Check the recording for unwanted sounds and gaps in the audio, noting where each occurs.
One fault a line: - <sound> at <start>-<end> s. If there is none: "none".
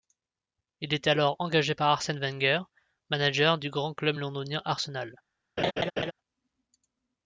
- laugh at 5.6-6.1 s